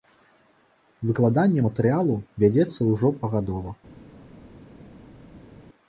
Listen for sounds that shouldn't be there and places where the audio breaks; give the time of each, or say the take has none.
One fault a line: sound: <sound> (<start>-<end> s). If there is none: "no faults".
no faults